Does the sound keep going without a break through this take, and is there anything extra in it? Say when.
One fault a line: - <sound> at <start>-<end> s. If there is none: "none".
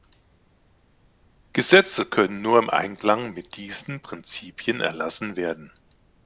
none